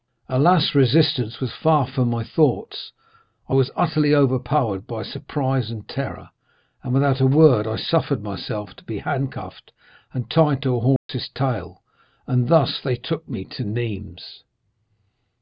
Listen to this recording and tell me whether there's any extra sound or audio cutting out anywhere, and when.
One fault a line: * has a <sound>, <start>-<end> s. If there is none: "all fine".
* has a dropout, 11.0-11.1 s